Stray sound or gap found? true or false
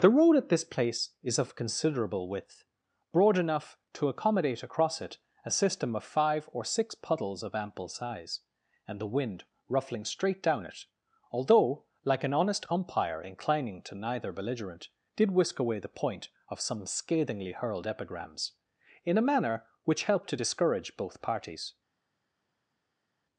false